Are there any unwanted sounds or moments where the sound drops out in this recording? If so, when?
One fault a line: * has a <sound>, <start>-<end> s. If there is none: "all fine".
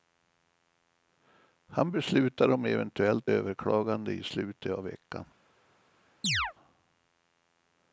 * has a chirp, 6.2-6.5 s